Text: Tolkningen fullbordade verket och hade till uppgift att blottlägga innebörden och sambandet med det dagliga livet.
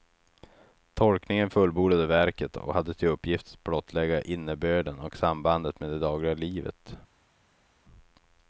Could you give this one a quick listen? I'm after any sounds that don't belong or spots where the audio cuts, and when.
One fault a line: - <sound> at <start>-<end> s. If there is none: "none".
none